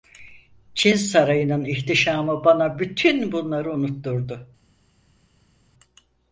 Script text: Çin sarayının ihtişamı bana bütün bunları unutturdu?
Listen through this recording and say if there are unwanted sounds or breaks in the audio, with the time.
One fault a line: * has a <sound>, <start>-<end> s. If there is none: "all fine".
all fine